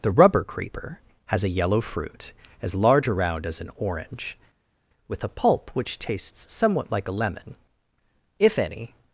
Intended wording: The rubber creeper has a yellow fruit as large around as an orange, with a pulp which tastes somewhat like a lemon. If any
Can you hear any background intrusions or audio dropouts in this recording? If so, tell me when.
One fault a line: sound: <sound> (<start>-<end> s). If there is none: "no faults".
no faults